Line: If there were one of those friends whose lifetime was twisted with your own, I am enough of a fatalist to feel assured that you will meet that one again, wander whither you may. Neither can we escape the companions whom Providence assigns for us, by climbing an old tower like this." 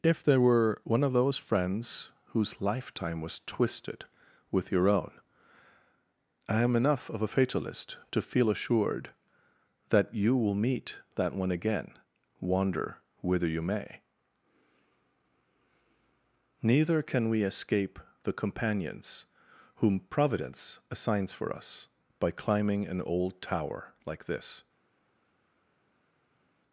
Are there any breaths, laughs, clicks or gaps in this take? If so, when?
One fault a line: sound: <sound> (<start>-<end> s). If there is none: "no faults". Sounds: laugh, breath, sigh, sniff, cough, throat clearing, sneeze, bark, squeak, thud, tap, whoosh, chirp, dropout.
no faults